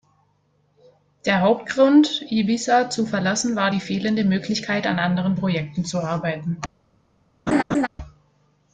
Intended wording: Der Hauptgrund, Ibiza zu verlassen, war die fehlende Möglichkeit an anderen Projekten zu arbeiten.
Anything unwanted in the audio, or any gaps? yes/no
yes